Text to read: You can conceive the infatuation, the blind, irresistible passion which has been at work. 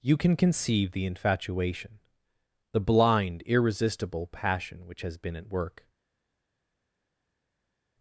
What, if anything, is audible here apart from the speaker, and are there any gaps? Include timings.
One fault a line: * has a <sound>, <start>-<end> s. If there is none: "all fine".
all fine